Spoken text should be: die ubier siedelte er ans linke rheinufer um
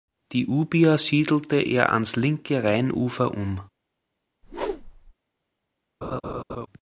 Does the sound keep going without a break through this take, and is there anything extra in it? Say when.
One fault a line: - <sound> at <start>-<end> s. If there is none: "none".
- whoosh at 4.4-5.1 s
- laugh at 6.0-6.7 s